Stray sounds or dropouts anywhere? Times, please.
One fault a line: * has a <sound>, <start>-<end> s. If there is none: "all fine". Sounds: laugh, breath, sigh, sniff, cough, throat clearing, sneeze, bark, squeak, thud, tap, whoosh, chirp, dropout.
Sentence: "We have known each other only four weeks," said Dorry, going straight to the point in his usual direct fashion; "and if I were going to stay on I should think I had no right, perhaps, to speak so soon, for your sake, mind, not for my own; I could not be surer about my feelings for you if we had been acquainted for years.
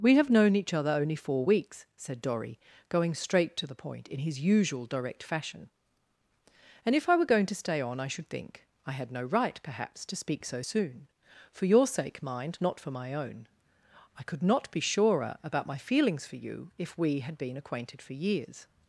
all fine